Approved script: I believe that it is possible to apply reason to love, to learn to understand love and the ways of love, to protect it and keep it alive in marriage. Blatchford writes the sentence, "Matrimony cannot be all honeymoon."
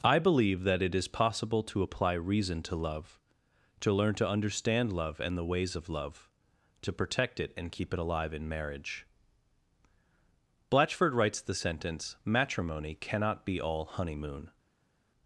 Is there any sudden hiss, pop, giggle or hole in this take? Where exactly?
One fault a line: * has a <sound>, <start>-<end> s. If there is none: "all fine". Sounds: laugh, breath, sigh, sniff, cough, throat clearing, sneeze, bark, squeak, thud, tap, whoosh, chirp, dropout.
all fine